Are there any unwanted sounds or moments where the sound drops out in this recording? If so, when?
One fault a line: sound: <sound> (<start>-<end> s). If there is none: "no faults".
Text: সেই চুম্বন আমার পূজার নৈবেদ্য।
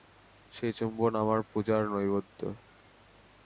no faults